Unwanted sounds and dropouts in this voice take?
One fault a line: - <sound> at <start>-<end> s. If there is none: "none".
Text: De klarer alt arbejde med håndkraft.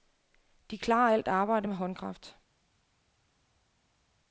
none